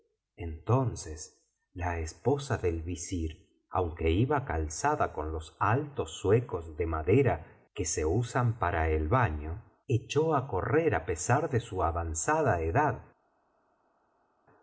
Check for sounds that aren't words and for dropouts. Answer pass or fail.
pass